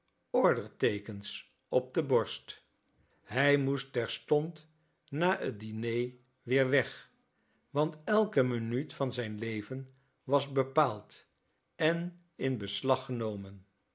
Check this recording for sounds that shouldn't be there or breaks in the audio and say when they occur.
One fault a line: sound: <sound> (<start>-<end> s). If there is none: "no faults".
no faults